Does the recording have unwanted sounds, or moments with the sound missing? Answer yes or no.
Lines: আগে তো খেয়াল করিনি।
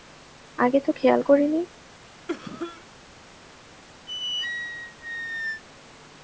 yes